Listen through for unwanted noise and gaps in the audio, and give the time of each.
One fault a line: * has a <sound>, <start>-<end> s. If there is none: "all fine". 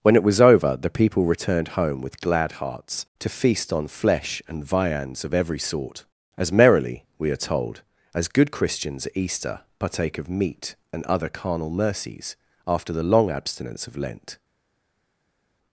all fine